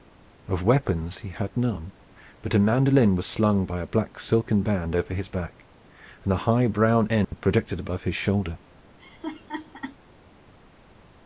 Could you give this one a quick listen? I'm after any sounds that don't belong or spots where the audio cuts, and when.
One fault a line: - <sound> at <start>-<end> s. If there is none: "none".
- dropout at 7.2-7.3 s
- laugh at 9.0-10.0 s